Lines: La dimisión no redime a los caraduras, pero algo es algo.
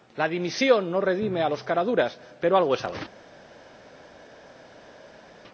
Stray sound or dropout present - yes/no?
no